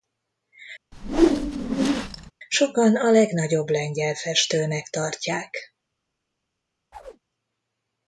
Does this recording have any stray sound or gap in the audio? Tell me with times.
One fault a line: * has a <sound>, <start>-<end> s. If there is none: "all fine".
* has a whoosh, 0.9-2.3 s
* has a chirp, 6.9-7.2 s